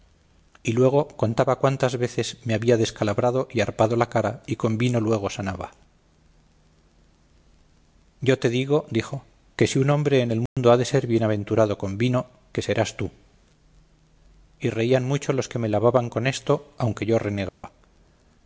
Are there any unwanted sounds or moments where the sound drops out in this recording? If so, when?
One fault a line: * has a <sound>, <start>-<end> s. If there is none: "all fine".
* has a dropout, 10.5-10.6 s
* has a dropout, 17.5-17.6 s